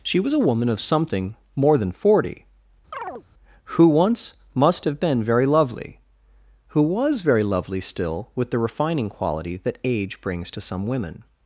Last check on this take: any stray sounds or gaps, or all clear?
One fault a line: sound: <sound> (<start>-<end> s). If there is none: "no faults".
sound: chirp (2.9-3.2 s)